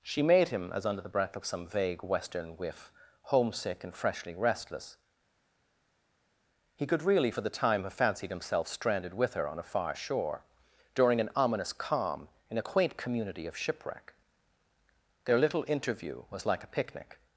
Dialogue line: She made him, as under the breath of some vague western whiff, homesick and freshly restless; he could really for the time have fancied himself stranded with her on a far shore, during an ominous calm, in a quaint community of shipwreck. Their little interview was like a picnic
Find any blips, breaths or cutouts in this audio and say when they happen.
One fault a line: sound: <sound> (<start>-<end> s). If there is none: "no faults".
no faults